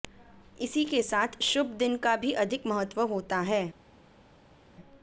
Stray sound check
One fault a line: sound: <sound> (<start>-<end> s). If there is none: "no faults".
no faults